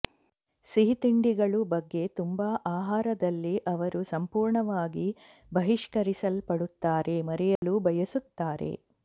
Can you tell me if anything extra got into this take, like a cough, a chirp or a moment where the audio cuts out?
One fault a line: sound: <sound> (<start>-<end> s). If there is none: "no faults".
sound: dropout (7.6-7.6 s)